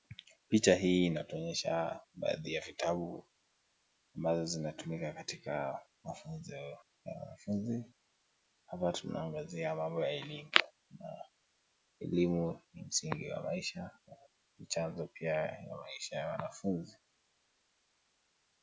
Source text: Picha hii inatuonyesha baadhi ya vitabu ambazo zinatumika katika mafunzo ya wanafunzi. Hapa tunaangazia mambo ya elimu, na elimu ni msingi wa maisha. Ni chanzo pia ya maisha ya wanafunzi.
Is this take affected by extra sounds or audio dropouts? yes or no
no